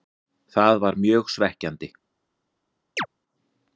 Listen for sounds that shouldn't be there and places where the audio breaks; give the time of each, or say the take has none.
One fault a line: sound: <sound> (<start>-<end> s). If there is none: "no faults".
sound: chirp (3.0-3.1 s)